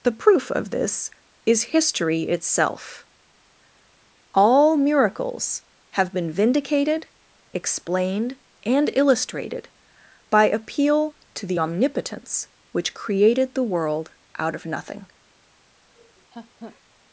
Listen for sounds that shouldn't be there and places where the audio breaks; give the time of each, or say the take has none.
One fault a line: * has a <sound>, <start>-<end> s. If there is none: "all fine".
* has a laugh, 15.9-16.8 s